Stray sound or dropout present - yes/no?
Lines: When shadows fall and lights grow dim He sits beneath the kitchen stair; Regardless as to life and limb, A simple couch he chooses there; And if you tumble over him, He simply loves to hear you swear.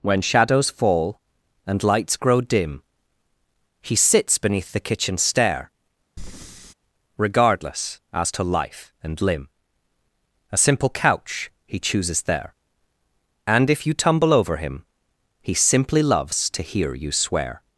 yes